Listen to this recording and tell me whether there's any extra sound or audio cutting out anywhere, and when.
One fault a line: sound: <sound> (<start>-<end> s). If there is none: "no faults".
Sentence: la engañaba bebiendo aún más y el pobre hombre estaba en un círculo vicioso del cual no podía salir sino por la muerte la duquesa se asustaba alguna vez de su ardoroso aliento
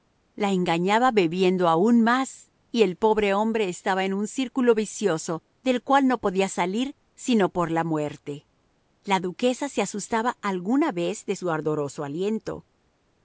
no faults